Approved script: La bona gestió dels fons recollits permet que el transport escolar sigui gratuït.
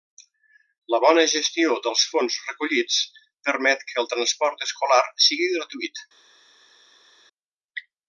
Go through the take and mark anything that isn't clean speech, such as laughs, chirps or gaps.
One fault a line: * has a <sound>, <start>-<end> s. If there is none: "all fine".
all fine